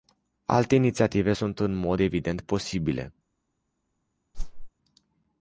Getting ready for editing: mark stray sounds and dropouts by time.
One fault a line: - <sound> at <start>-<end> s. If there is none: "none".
- whoosh at 4.3-4.7 s